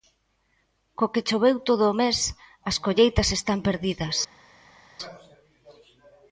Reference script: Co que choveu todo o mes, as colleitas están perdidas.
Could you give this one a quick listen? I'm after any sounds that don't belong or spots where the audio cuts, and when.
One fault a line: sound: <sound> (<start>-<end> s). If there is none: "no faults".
no faults